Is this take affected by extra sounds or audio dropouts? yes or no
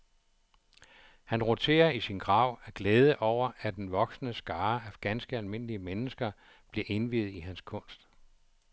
no